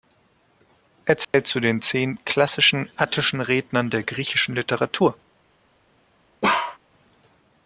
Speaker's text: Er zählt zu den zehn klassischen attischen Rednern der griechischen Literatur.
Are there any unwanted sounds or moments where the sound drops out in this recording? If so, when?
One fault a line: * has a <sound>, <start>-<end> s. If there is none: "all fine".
* has a dropout, 1.2-1.3 s
* has a bark, 6.4-6.8 s